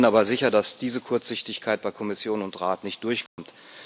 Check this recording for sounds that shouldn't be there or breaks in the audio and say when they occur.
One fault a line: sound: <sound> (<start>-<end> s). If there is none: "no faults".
sound: dropout (3.3-3.4 s)